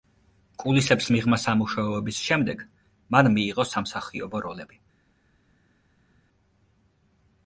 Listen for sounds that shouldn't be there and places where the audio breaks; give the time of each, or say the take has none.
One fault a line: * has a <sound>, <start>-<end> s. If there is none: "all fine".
all fine